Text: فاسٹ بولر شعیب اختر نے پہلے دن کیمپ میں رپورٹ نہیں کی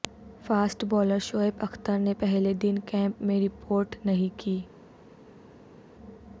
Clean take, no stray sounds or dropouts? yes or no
yes